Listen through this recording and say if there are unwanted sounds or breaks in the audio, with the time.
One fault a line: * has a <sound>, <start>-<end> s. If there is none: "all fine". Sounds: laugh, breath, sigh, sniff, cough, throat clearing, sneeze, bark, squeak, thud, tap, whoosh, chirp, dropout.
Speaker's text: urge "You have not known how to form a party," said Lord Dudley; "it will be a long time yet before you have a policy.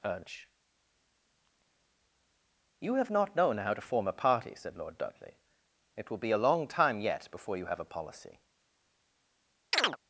* has a chirp, 9.7-10.0 s